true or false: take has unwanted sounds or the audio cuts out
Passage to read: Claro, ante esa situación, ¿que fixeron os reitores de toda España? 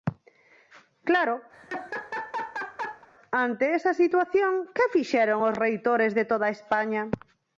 true